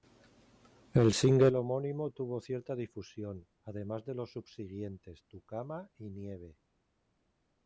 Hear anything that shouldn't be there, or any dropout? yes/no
no